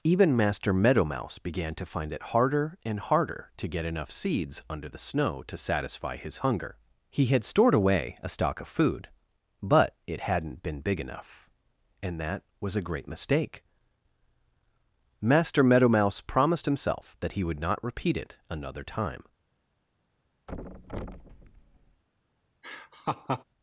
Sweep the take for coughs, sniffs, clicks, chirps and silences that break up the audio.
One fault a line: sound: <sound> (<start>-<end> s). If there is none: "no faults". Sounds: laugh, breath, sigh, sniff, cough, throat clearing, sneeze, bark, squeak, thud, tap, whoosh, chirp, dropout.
sound: thud (20.5-22.0 s)
sound: laugh (22.6-23.4 s)